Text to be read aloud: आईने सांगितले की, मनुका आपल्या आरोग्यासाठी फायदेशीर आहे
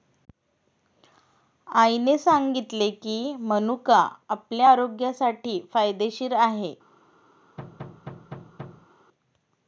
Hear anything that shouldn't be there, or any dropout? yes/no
yes